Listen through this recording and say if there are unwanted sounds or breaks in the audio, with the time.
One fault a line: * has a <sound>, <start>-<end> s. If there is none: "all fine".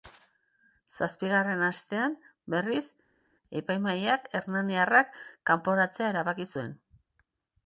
all fine